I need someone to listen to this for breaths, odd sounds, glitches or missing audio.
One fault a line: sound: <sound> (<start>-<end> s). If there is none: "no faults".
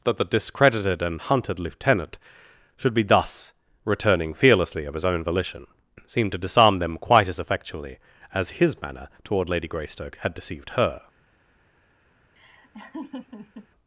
sound: laugh (12.4-13.7 s)